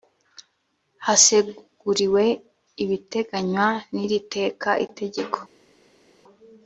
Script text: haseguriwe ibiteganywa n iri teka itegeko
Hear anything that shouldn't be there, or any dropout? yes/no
no